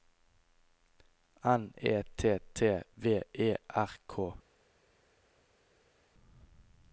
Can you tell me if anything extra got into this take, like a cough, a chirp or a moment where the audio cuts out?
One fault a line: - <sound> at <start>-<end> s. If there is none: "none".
none